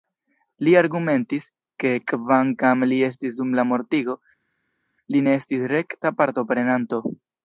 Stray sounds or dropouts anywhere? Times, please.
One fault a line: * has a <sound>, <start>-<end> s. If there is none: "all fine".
all fine